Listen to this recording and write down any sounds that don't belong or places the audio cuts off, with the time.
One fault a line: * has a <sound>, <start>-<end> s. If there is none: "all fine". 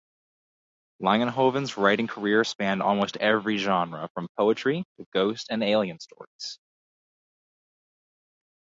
all fine